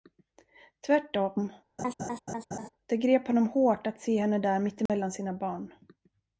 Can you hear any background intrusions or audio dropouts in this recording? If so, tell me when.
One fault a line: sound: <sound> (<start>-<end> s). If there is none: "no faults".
sound: laugh (1.8-2.7 s)
sound: dropout (4.9-4.9 s)